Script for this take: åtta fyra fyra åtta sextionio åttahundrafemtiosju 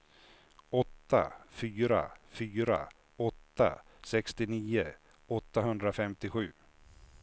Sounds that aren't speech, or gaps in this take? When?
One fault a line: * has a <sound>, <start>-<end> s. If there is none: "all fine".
all fine